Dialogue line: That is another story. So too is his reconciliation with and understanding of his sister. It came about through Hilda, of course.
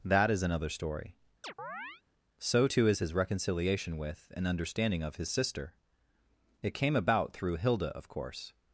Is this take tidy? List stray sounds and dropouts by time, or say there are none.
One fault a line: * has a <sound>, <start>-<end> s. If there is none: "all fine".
* has a chirp, 1.4-2.0 s